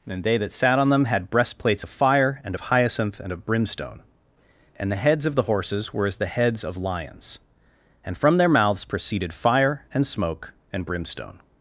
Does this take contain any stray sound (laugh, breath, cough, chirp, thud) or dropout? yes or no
no